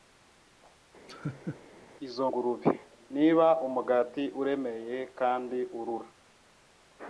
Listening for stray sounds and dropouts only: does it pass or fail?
fail